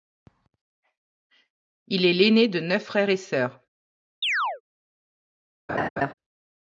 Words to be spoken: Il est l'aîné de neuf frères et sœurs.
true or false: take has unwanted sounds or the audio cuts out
true